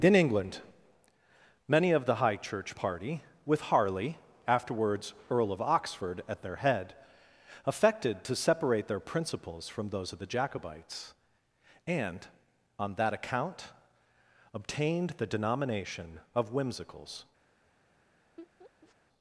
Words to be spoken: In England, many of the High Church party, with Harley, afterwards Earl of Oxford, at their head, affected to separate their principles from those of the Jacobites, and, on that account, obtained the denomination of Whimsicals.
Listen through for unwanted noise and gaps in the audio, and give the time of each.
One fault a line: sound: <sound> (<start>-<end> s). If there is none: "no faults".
sound: laugh (18.4-19.0 s)